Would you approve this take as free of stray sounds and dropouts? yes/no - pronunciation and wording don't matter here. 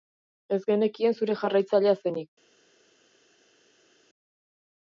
yes